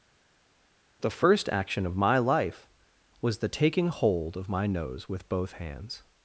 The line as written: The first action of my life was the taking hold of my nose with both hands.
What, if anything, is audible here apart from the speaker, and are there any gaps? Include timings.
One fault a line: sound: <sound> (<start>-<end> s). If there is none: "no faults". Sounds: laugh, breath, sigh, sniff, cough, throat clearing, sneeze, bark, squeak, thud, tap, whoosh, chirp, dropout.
no faults